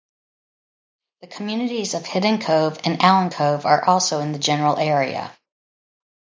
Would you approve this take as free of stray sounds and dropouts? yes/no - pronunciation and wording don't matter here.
yes